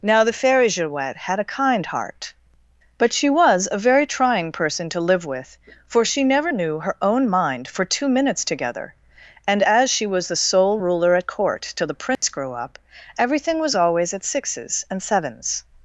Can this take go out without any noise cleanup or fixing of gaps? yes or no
no